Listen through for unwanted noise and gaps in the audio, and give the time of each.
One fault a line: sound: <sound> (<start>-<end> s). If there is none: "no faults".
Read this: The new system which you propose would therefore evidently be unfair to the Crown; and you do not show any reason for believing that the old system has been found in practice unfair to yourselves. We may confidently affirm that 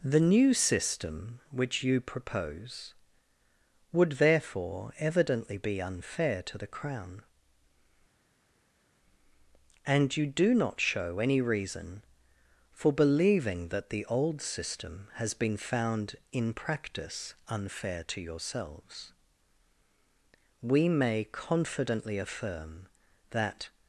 no faults